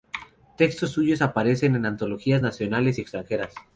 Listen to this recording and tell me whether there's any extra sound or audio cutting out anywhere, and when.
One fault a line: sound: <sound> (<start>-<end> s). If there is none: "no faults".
no faults